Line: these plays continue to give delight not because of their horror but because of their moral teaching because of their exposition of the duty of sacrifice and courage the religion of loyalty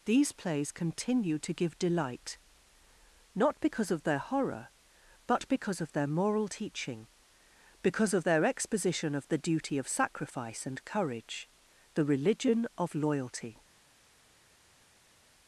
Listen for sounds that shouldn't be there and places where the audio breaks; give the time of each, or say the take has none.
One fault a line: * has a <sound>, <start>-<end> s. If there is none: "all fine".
all fine